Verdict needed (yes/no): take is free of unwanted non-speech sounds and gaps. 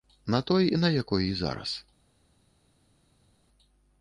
yes